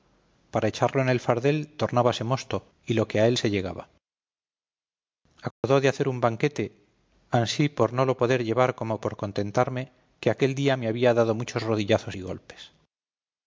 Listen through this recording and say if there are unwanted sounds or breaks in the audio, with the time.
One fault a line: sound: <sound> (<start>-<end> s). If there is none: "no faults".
sound: dropout (5.5-5.6 s)